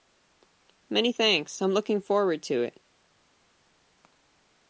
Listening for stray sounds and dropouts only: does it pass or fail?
pass